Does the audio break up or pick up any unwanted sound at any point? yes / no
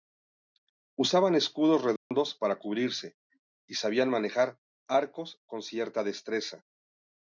yes